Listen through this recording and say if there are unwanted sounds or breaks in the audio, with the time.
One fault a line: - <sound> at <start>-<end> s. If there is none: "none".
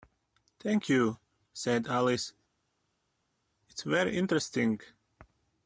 none